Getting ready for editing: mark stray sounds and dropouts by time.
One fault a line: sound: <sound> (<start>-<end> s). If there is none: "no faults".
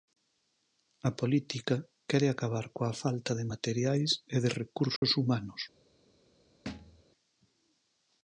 sound: dropout (5.0-5.0 s)
sound: thud (6.7-7.0 s)